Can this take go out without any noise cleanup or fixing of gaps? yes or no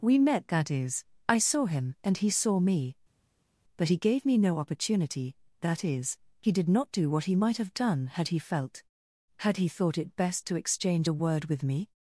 yes